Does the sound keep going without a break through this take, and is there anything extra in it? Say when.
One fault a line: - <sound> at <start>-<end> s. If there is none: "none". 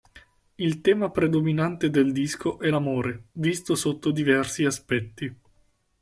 none